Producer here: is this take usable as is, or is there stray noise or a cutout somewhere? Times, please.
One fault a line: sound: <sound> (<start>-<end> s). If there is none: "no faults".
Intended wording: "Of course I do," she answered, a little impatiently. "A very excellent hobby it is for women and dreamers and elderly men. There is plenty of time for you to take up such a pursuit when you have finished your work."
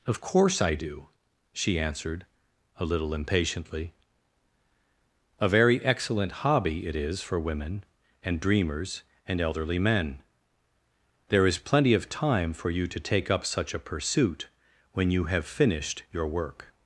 no faults